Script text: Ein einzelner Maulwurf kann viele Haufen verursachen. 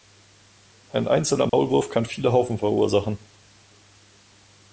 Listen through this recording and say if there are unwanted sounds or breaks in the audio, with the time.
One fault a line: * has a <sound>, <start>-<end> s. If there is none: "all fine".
* has a dropout, 1.5-1.5 s